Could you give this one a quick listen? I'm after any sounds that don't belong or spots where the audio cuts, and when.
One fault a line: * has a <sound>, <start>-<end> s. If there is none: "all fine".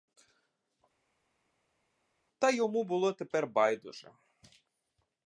all fine